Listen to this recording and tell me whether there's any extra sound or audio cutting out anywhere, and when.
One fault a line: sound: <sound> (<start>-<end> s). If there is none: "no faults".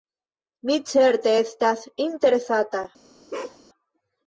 sound: bark (3.3-3.6 s)